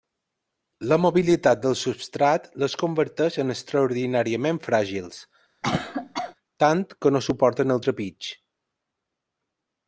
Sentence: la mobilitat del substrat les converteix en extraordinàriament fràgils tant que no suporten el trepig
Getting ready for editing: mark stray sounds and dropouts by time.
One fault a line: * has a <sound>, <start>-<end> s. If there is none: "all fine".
* has a cough, 5.6-6.3 s